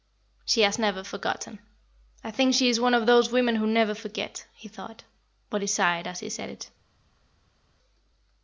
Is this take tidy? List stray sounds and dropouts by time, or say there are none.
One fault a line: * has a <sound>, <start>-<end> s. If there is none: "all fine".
all fine